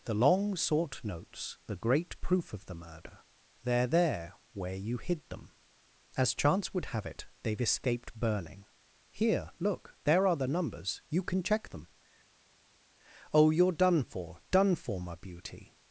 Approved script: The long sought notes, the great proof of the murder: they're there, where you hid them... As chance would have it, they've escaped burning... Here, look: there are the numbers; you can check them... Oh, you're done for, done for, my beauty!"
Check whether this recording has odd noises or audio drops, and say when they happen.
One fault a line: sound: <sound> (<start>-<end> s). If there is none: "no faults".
no faults